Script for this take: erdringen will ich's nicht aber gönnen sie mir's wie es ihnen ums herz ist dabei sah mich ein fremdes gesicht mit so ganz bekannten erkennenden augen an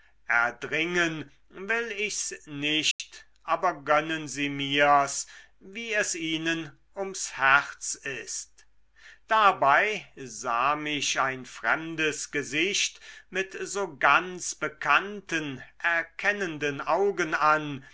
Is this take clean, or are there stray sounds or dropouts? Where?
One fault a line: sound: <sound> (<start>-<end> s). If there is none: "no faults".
sound: dropout (2.9-3.0 s)